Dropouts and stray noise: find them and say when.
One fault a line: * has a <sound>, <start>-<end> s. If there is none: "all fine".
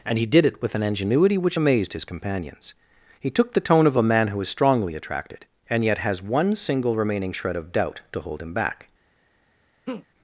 * has a laugh, 9.9-10.1 s